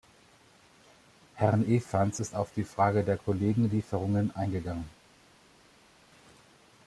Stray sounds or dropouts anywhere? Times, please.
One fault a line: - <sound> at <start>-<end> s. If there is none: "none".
none